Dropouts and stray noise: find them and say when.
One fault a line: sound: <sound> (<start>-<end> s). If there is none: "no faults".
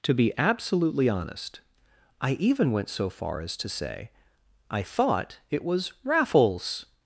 no faults